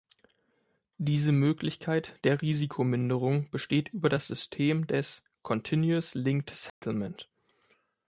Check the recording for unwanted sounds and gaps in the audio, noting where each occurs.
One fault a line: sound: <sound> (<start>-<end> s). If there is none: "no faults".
sound: dropout (6.7-6.8 s)